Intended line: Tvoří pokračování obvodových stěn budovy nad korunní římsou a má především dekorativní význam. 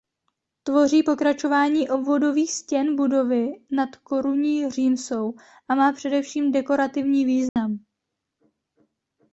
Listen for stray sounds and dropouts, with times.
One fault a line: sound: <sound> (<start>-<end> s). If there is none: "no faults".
sound: dropout (7.5-7.6 s)